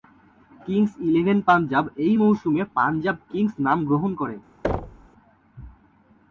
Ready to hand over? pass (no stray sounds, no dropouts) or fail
fail